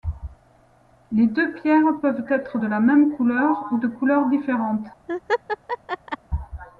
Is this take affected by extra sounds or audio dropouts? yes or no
yes